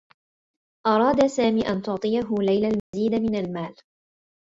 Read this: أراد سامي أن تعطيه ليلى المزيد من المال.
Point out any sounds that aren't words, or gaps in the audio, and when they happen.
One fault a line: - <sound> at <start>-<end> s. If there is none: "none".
- dropout at 2.8-2.9 s